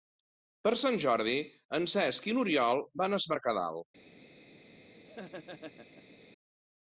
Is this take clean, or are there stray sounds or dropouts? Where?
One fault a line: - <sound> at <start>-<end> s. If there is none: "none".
- laugh at 5.0-6.2 s